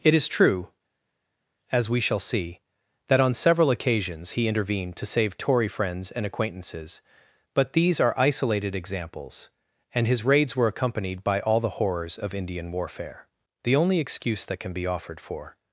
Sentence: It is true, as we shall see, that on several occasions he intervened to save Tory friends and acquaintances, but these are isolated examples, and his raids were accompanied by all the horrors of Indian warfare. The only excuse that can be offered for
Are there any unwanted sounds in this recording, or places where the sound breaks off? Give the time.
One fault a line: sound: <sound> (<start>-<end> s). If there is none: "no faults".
no faults